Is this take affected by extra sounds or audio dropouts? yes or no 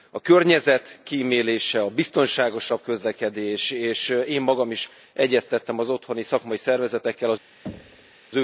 yes